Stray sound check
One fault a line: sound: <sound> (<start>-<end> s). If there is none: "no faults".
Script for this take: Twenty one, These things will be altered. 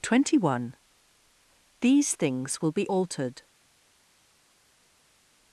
no faults